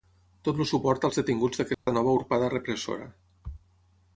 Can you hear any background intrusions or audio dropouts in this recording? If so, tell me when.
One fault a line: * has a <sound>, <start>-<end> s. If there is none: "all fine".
* has a dropout, 1.7-1.9 s